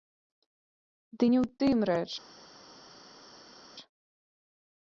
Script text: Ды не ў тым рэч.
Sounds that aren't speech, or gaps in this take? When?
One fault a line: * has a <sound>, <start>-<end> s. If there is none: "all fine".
all fine